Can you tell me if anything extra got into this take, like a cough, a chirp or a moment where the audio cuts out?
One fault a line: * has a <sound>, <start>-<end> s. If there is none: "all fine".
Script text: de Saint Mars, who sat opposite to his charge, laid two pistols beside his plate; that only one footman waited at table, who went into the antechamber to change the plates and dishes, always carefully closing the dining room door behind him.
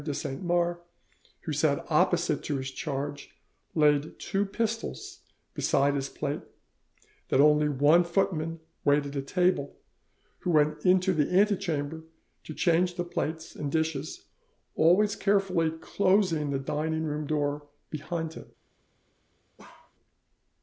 * has a bark, 19.6-19.9 s